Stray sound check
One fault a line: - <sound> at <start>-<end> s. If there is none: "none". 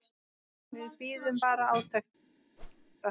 - whoosh at 2.6-3.0 s